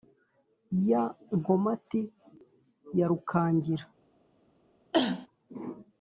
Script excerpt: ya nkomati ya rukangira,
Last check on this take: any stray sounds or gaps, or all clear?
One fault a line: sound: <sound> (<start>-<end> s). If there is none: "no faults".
sound: cough (4.9-5.3 s)